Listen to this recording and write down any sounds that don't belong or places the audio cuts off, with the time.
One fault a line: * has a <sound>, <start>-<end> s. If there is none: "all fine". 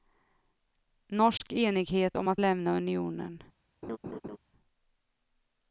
* has a dropout, 1.4-1.4 s
* has a laugh, 3.8-4.4 s